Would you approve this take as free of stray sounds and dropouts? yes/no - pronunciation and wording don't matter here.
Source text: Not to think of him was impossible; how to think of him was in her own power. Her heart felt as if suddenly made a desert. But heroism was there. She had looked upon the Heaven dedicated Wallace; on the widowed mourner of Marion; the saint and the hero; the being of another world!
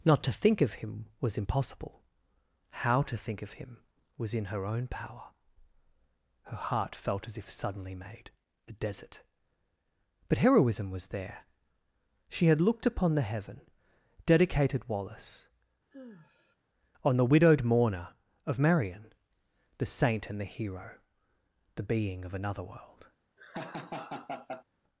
no